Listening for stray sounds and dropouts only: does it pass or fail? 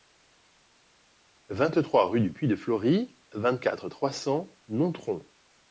pass